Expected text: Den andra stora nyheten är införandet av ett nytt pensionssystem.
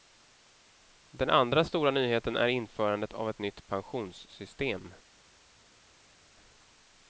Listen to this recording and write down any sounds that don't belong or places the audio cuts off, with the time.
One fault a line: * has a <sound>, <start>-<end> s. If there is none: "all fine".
all fine